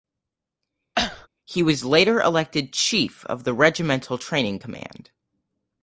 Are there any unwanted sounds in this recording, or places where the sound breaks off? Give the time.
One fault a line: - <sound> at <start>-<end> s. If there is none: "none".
- cough at 0.9-1.3 s